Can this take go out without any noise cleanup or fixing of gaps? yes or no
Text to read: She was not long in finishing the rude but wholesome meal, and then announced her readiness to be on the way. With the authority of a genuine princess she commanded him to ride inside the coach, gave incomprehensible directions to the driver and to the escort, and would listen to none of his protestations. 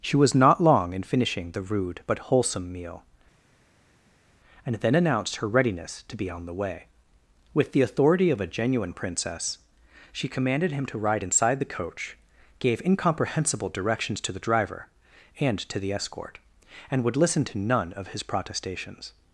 yes